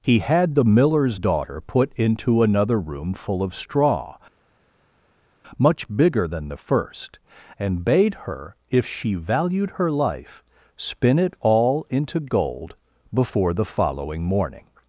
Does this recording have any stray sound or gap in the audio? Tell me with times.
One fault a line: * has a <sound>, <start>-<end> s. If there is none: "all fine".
all fine